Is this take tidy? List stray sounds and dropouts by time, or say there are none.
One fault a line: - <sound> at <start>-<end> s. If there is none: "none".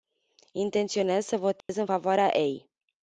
- dropout at 1.6-1.7 s